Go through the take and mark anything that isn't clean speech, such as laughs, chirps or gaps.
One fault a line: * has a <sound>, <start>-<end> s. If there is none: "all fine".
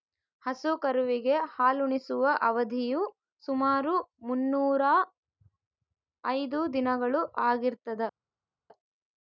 all fine